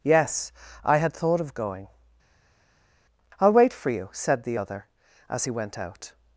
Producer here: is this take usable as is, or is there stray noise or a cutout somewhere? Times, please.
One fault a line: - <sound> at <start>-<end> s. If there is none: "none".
none